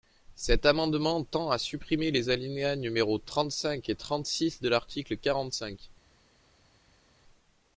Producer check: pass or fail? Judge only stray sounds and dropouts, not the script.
pass